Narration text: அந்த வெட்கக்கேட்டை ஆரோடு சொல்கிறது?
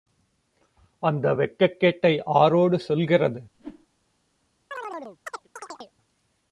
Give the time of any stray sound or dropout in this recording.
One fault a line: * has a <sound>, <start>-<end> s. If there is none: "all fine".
* has a whoosh, 3.5-3.9 s
* has a chirp, 4.7-5.9 s